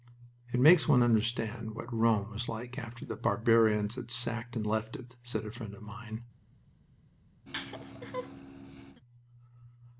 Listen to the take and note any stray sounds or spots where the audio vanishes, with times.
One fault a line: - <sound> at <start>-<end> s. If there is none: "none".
- laugh at 7.5-9.0 s